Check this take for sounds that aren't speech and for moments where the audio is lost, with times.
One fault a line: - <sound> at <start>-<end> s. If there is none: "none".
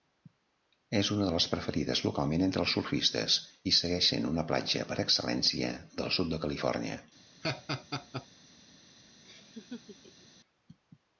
- laugh at 7.4-8.3 s
- laugh at 9.2-10.3 s